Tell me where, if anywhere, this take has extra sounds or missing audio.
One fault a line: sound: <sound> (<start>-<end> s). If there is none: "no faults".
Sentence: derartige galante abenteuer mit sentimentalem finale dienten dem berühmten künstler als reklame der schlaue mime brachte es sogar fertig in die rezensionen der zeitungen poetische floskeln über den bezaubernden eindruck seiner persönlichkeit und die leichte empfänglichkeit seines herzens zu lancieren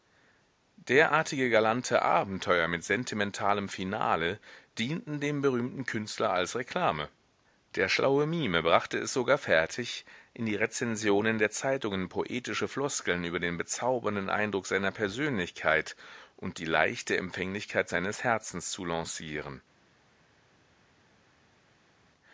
no faults